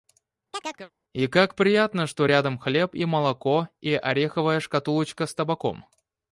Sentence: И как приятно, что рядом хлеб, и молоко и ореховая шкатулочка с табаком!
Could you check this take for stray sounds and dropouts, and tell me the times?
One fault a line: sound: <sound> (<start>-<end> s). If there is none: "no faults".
sound: chirp (0.5-0.9 s)